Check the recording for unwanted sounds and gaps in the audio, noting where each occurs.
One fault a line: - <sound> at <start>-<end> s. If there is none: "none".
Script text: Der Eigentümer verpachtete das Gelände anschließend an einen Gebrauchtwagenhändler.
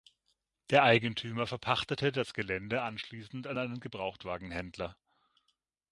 none